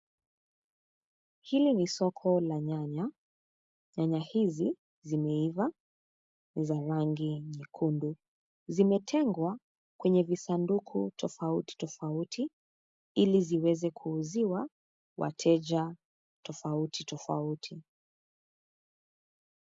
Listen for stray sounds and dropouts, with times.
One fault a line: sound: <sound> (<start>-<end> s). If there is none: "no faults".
no faults